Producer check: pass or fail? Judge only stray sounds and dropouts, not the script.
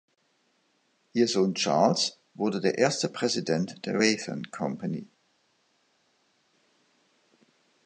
pass